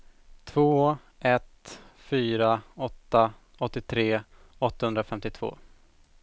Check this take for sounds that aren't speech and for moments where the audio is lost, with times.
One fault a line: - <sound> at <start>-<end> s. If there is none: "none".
none